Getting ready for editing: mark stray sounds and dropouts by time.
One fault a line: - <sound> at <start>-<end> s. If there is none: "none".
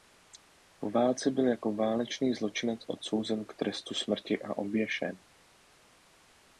none